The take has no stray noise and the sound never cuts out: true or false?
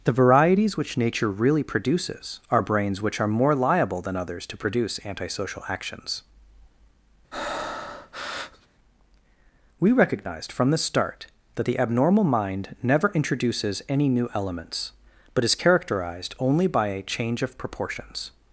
false